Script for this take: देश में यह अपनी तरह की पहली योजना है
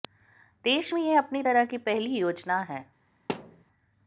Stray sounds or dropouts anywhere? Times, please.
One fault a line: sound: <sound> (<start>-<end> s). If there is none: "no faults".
sound: thud (3.3-3.6 s)